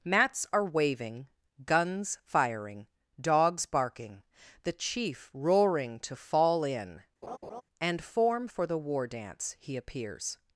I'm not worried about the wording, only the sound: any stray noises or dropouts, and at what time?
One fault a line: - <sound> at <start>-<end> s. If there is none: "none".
- laugh at 7.2-7.6 s